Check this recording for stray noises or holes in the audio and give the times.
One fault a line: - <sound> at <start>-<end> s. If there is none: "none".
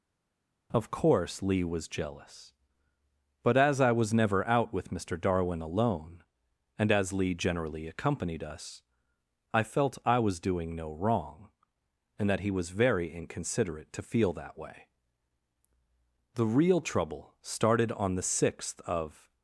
none